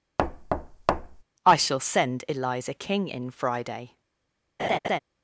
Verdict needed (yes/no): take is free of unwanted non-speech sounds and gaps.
no